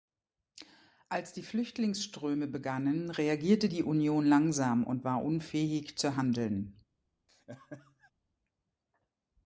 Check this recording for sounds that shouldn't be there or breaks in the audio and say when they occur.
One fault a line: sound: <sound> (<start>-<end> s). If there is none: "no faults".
sound: laugh (7.3-8.1 s)